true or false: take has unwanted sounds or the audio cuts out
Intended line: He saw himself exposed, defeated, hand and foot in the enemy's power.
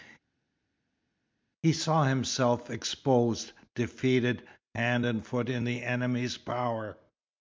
false